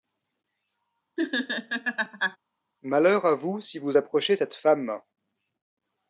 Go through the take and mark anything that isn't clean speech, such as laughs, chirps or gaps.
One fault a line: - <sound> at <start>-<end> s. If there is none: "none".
- laugh at 1.2-2.4 s